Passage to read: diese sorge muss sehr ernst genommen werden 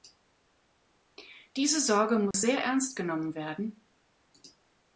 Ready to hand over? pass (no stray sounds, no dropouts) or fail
fail